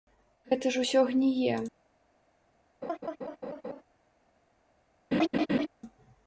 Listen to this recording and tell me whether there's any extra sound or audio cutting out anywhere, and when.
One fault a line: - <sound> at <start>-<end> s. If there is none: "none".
- laugh at 2.8-3.8 s
- laugh at 5.1-5.7 s